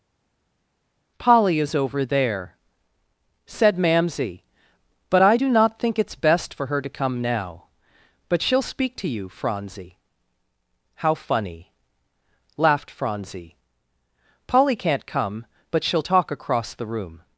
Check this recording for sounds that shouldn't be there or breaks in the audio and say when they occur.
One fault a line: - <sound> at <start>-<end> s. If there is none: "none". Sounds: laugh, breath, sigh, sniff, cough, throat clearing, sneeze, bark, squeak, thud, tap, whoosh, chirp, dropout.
none